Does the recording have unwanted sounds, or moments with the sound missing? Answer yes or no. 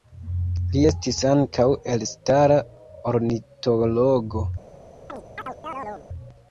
yes